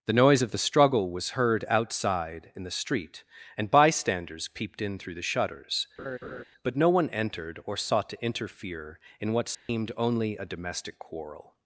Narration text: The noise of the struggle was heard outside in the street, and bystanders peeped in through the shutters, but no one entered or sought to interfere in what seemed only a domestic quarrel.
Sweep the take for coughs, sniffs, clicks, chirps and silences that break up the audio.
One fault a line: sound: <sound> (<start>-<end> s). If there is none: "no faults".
sound: laugh (6.0-6.4 s)
sound: dropout (9.5-9.7 s)